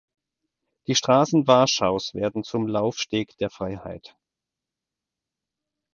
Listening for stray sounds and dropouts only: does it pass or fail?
pass